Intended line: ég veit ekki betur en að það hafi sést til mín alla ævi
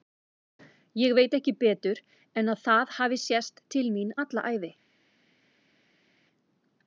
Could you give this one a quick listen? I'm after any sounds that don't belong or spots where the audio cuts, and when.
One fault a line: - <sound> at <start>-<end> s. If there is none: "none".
none